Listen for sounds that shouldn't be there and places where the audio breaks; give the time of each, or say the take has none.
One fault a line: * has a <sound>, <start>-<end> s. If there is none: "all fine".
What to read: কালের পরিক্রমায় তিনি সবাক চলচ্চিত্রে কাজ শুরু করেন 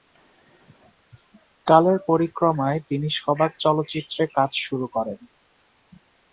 all fine